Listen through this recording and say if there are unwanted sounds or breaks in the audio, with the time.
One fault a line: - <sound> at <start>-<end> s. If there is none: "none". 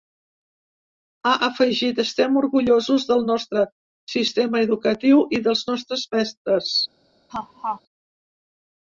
- laugh at 7.3-7.8 s